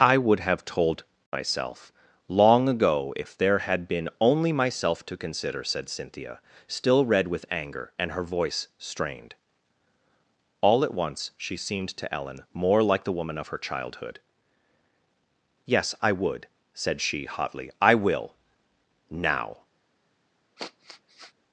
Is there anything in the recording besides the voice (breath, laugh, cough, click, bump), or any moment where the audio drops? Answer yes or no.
yes